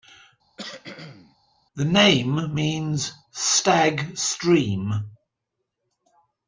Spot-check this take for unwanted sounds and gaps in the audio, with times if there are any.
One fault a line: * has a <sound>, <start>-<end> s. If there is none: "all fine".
* has a cough, 0.6-1.4 s